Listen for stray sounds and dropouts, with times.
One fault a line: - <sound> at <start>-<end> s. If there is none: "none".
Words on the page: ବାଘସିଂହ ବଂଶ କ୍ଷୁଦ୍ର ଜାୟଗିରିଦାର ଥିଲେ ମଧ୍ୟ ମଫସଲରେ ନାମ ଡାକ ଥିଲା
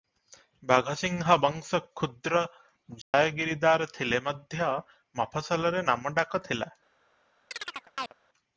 - dropout at 3.0-3.1 s
- chirp at 7.5-8.1 s